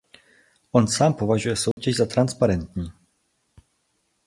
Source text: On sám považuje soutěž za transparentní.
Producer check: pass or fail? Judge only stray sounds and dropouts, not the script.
fail